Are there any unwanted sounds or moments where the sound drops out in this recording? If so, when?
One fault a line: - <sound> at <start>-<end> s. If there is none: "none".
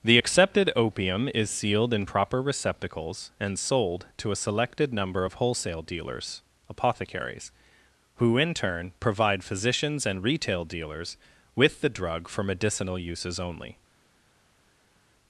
none